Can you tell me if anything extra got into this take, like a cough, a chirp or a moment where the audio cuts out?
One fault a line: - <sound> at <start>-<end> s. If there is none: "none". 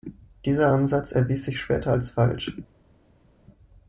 none